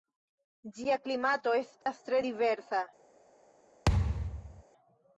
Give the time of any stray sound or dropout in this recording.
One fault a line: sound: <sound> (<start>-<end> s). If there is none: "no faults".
sound: dropout (1.8-1.9 s)
sound: thud (3.9-4.6 s)